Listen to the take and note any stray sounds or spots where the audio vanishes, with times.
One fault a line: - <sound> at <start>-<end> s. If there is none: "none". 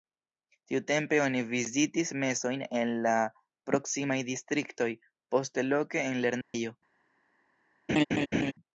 - dropout at 6.4-6.5 s
- laugh at 7.9-8.5 s